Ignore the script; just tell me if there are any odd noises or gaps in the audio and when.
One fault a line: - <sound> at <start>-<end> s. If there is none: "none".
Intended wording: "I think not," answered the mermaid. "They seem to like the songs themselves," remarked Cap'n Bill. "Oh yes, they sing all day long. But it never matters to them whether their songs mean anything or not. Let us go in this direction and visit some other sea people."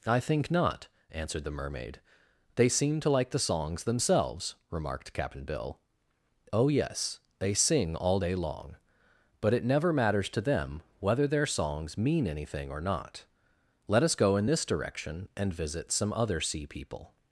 none